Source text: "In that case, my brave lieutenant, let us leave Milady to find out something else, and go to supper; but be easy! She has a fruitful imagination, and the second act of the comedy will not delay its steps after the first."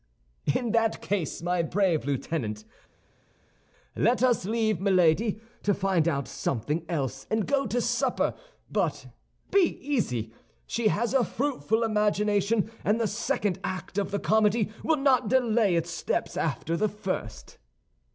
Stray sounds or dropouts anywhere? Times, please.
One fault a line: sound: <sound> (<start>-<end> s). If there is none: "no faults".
no faults